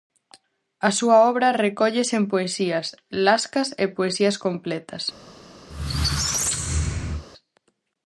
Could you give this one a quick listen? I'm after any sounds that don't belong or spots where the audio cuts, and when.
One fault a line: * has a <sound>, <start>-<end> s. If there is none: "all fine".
* has a squeak, 5.7-7.2 s